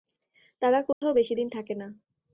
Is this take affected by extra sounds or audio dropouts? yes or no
yes